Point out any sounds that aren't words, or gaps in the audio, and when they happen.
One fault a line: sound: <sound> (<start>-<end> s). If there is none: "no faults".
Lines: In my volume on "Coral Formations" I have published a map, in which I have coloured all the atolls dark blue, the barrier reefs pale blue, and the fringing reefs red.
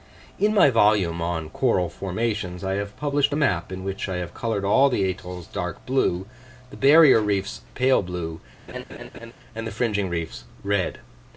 sound: laugh (8.7-9.3 s)